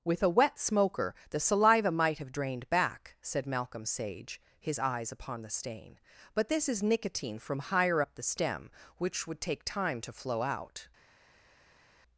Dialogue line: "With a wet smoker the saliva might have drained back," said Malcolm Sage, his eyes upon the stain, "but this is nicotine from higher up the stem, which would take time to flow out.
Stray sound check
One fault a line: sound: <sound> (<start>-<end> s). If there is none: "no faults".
no faults